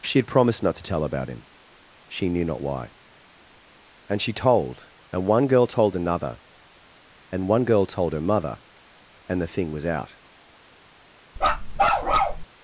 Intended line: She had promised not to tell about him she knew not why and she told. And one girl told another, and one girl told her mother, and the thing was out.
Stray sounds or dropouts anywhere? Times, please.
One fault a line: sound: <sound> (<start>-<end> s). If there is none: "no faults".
sound: bark (11.4-12.4 s)